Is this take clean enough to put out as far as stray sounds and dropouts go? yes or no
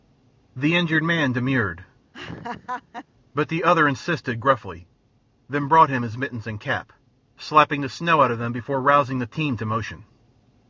no